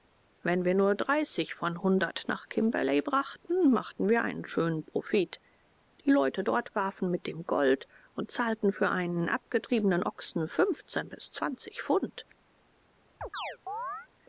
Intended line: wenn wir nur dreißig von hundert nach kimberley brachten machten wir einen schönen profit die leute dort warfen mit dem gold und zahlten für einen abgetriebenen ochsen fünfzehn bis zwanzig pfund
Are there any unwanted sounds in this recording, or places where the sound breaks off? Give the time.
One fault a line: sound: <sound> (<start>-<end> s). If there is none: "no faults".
sound: chirp (13.2-14.1 s)